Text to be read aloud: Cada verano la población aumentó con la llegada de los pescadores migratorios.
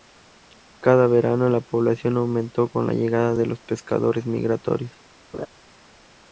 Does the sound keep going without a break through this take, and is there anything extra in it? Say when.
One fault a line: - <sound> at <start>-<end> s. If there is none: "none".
- laugh at 5.3-5.5 s